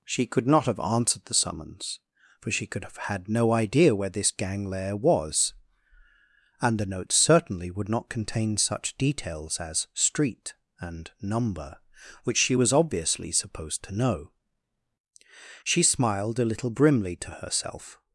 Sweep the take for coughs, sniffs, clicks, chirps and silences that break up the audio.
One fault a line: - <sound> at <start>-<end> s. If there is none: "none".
none